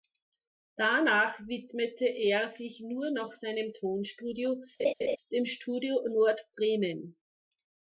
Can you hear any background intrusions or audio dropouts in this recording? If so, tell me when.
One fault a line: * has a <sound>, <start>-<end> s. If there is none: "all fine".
* has a laugh, 4.8-5.2 s